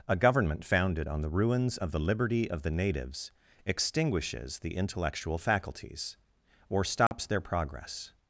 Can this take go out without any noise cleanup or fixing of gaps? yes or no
no